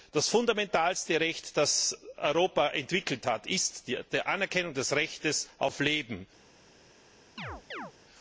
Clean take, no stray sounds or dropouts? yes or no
no